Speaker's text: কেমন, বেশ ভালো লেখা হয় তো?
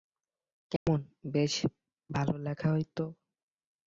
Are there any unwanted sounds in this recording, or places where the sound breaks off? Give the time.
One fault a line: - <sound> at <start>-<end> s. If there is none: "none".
- dropout at 0.8-0.9 s